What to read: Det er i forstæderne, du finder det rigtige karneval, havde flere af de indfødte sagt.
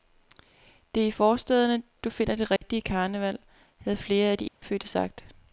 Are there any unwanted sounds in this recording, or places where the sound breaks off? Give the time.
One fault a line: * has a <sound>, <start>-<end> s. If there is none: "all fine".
* has a dropout, 2.6-2.6 s
* has a dropout, 4.5-4.6 s